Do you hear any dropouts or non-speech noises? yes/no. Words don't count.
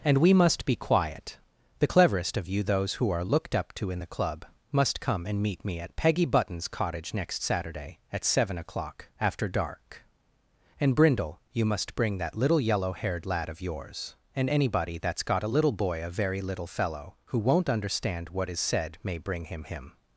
no